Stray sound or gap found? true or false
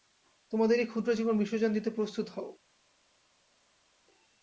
false